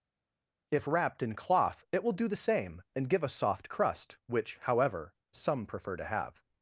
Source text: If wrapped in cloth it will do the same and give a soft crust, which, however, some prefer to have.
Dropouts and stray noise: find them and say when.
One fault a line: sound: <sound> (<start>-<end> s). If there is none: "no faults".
no faults